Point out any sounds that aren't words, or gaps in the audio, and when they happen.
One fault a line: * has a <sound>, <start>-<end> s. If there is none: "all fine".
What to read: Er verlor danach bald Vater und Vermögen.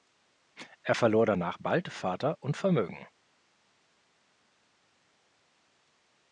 all fine